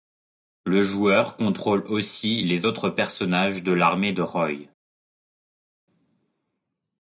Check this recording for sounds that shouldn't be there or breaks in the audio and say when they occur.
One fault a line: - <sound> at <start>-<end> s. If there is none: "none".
none